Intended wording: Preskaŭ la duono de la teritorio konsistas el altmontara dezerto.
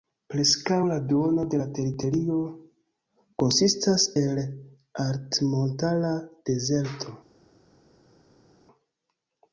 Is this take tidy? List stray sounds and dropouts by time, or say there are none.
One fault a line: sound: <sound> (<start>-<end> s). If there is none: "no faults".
no faults